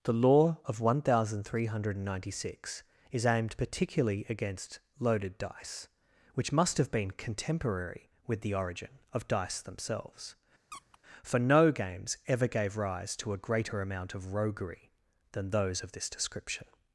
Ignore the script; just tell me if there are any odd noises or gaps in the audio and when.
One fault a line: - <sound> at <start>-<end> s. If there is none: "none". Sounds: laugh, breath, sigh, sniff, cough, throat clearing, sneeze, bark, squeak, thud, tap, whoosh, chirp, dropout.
- squeak at 10.7-11.0 s